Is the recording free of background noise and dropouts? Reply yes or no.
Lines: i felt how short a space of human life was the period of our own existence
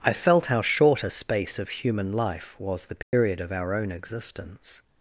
no